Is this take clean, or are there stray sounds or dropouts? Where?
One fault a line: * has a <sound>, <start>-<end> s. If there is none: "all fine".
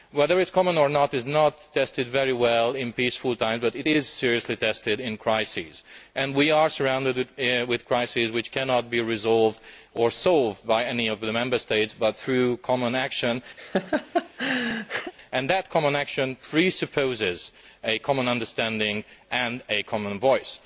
* has a laugh, 13.6-15.1 s